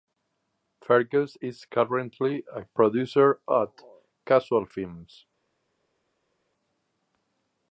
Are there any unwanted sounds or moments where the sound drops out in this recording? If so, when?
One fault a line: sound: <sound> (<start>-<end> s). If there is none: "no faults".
no faults